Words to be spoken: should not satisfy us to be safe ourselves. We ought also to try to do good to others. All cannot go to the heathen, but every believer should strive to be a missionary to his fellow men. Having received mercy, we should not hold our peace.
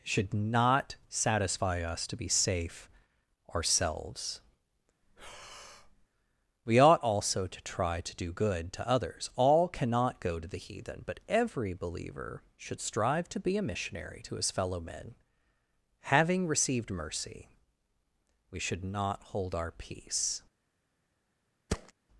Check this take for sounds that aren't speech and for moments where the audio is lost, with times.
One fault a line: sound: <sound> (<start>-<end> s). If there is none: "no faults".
sound: breath (5.0-6.1 s)
sound: thud (21.7-21.9 s)